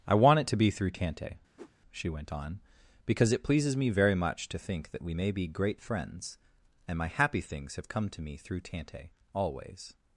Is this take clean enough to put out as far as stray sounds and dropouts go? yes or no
no